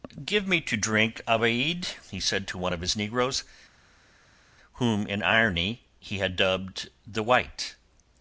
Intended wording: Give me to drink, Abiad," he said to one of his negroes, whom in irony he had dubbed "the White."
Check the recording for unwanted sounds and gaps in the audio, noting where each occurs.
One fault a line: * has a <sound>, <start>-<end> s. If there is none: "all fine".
all fine